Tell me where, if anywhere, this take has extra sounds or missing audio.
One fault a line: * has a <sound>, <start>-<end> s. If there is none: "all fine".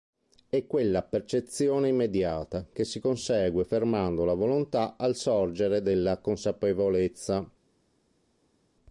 all fine